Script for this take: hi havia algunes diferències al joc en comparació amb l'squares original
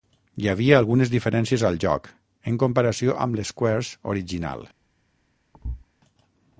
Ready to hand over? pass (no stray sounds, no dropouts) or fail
fail